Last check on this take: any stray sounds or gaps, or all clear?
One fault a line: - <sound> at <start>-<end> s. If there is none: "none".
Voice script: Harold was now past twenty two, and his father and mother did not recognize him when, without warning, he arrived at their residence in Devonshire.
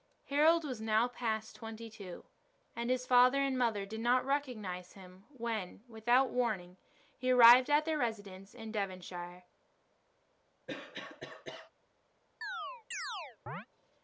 - cough at 10.7-11.7 s
- chirp at 12.4-13.7 s